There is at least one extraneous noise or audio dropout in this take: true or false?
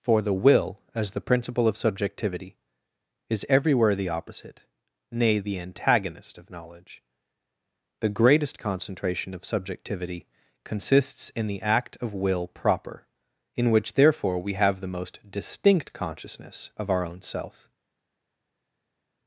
false